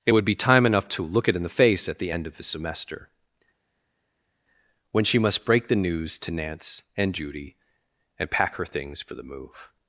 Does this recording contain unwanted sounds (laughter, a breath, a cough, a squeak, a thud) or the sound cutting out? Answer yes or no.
no